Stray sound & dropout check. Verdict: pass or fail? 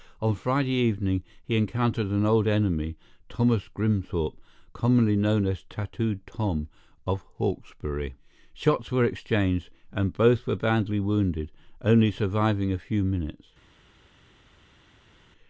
pass